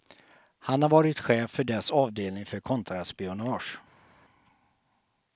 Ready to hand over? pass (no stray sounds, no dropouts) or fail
pass